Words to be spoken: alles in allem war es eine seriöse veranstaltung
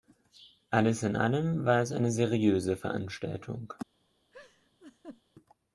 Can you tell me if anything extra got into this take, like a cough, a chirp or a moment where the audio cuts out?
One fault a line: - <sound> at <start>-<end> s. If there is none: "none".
- laugh at 4.3-5.2 s